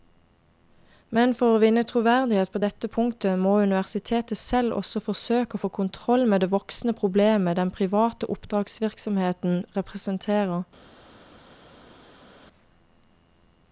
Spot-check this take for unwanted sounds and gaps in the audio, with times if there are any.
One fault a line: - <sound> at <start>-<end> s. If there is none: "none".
none